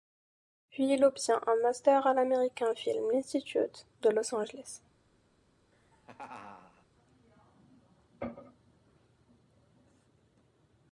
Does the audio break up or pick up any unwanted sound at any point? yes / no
yes